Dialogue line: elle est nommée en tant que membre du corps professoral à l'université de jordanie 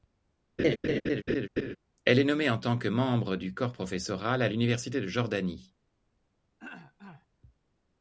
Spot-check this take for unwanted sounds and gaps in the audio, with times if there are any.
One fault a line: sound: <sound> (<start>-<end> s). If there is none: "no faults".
sound: laugh (0.6-1.8 s)
sound: throat clearing (6.6-7.3 s)